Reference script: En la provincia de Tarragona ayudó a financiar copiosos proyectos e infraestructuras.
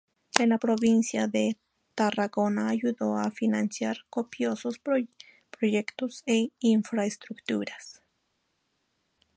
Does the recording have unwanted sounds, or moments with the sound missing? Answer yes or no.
no